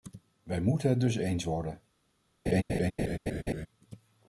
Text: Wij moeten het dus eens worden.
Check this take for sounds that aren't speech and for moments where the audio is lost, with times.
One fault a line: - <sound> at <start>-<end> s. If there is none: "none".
- laugh at 2.5-3.7 s